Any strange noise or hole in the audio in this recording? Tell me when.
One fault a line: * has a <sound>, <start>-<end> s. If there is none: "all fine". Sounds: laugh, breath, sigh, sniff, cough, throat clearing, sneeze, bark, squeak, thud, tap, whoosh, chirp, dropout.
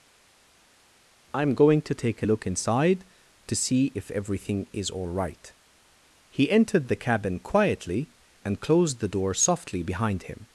all fine